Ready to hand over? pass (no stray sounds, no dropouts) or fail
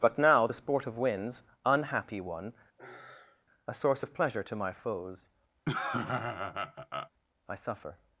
fail